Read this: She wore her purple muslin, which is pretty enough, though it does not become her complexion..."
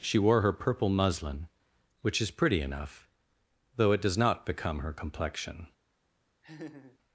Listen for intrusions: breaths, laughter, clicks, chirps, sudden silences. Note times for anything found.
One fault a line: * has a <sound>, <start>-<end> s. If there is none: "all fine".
* has a laugh, 6.4-7.0 s